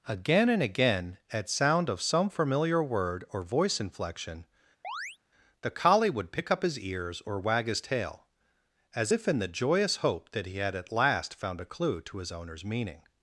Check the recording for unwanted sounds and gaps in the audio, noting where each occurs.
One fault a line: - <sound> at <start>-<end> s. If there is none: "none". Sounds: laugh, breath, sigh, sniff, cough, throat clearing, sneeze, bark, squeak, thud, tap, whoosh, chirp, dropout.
- chirp at 4.8-5.2 s